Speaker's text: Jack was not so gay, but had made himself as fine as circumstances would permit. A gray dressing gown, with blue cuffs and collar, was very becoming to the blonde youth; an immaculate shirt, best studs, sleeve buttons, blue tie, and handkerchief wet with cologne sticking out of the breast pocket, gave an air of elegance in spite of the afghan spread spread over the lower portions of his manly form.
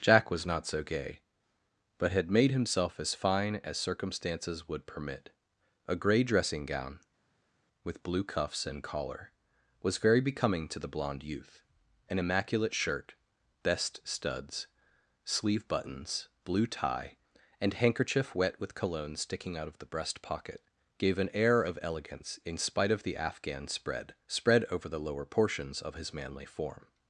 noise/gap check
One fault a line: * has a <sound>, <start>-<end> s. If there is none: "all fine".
all fine